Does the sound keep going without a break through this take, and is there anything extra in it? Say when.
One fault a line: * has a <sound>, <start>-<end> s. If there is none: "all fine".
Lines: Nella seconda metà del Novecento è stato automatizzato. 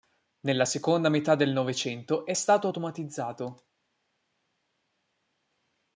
all fine